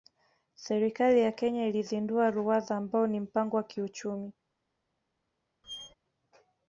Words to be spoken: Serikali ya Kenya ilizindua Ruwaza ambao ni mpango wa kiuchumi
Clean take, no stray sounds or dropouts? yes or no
no